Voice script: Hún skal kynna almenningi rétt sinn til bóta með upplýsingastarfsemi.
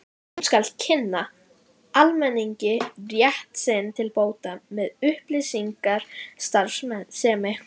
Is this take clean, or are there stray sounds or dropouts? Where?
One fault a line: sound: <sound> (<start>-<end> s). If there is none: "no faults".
no faults